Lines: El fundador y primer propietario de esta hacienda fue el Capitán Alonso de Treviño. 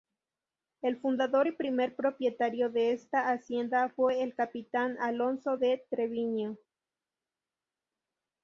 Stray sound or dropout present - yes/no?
no